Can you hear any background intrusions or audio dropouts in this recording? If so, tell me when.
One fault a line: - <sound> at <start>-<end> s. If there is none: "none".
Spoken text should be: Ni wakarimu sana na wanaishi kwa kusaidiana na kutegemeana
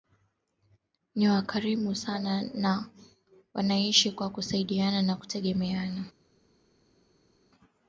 none